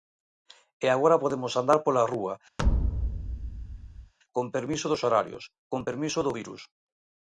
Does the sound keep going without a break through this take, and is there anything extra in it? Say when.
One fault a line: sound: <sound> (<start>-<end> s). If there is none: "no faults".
sound: thud (2.6-4.1 s)